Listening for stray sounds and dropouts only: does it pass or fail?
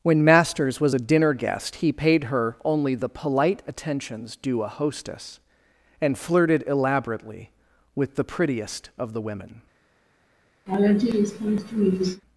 fail